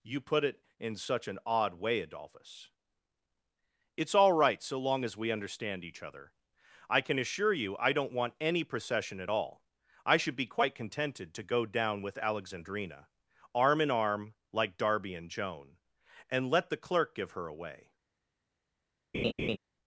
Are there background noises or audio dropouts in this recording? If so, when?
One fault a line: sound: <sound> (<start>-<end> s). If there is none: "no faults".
sound: laugh (19.1-19.6 s)